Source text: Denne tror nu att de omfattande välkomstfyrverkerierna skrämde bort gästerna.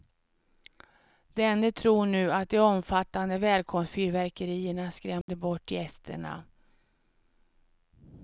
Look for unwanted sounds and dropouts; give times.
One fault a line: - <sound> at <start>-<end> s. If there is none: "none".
- dropout at 5.2-5.3 s